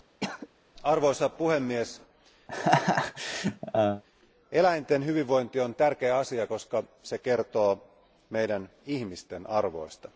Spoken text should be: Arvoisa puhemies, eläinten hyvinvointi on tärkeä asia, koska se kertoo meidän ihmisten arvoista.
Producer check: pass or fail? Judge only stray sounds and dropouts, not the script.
fail